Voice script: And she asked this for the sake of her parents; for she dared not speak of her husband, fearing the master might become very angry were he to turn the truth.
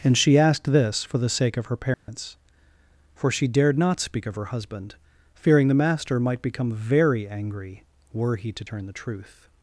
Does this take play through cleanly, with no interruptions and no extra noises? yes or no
no